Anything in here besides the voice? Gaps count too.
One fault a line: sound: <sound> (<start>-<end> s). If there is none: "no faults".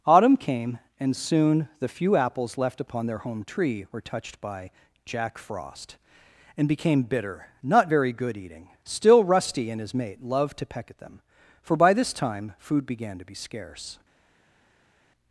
no faults